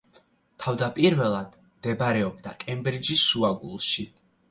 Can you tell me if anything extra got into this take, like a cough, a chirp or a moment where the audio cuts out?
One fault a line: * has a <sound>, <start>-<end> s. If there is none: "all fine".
all fine